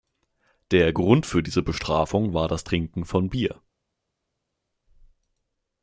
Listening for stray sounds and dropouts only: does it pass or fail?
pass